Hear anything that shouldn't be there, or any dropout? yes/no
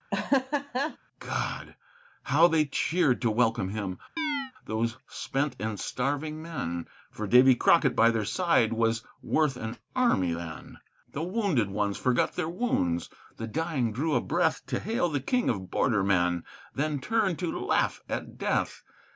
yes